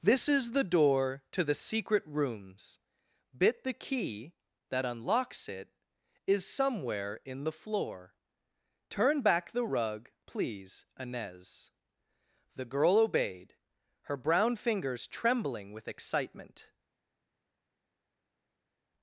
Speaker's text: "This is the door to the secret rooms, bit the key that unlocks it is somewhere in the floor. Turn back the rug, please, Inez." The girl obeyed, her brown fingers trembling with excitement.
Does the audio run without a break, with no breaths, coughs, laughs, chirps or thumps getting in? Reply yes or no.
yes